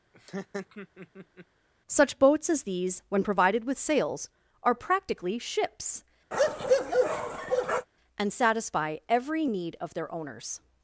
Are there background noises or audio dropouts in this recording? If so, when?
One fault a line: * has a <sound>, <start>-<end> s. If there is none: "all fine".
* has a laugh, 0.1-1.5 s
* has a bark, 6.3-7.9 s